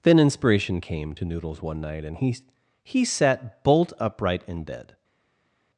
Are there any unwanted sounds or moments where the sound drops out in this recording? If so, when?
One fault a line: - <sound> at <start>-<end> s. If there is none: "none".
none